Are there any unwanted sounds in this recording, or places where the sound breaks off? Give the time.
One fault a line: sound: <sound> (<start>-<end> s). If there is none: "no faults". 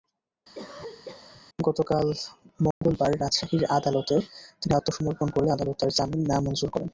sound: cough (0.5-1.4 s)
sound: dropout (2.7-2.8 s)